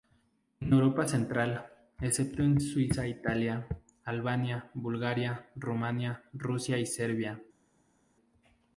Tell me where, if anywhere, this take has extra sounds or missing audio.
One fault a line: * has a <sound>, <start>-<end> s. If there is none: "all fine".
all fine